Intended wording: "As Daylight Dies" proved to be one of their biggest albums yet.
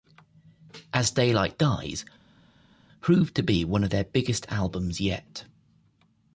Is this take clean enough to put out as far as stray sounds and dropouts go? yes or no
yes